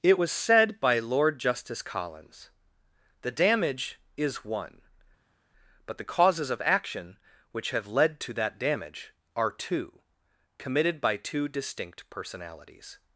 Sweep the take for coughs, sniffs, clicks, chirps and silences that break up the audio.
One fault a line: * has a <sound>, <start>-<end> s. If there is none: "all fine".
all fine